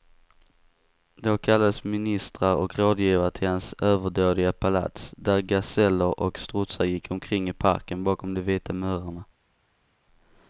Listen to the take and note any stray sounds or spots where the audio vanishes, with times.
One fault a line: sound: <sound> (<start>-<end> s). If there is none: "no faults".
no faults